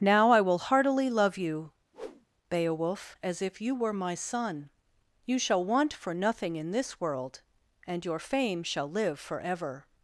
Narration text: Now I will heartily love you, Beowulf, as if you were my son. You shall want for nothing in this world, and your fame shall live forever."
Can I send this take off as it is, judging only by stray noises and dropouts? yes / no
no